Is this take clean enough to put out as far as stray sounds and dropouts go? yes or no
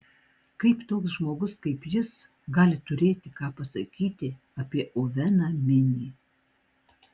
yes